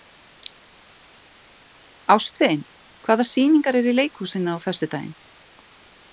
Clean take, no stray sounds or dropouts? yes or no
yes